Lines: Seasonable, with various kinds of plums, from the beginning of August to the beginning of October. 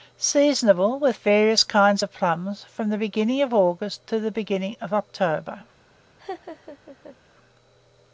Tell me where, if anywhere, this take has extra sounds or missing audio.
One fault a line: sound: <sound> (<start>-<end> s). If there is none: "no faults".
sound: laugh (6.2-7.2 s)